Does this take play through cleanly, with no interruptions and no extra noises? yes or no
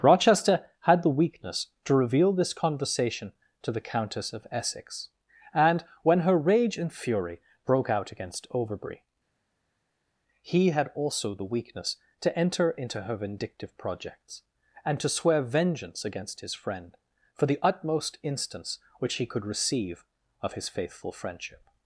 yes